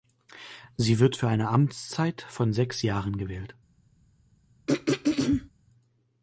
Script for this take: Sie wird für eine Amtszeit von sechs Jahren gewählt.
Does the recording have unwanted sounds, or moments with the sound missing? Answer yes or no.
yes